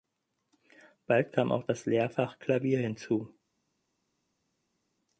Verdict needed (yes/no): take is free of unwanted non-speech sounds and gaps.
yes